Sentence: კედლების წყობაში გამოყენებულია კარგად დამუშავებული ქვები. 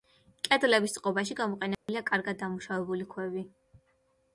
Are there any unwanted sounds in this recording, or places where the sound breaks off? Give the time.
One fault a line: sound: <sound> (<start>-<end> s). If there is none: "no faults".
sound: dropout (1.7-1.9 s)